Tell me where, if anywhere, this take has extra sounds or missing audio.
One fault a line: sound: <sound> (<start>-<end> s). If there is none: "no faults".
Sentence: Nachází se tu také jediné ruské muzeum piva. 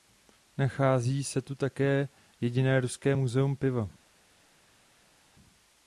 no faults